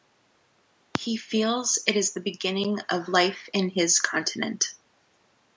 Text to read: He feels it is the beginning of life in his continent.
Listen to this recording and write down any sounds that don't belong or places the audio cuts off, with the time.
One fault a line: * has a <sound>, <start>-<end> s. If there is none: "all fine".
all fine